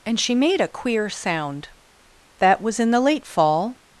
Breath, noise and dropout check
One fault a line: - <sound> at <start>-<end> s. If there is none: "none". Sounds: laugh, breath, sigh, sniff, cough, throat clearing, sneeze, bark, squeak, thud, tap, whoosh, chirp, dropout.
none